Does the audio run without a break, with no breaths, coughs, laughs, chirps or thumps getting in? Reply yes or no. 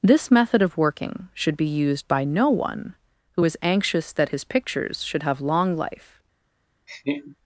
no